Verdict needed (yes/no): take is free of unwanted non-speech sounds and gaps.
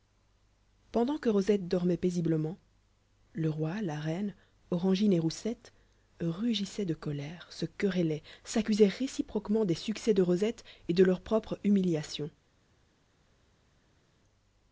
yes